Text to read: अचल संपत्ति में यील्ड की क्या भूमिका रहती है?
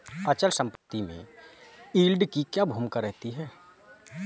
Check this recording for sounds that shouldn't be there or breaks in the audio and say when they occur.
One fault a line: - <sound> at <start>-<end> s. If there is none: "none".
- dropout at 0.8-0.9 s